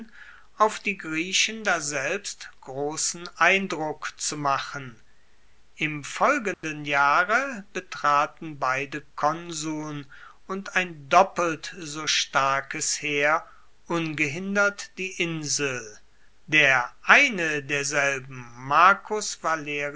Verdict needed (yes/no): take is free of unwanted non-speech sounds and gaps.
no